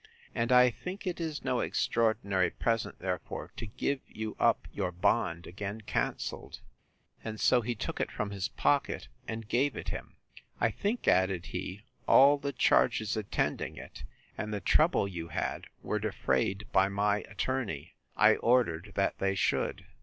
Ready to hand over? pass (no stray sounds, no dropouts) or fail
pass